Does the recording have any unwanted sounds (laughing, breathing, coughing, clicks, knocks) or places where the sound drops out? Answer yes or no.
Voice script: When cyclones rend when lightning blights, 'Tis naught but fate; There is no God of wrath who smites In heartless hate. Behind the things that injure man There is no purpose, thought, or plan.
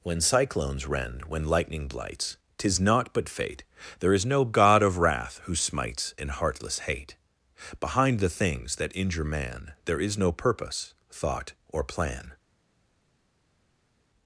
no